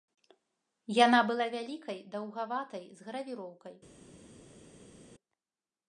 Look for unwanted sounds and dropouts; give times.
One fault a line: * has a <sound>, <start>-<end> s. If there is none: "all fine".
all fine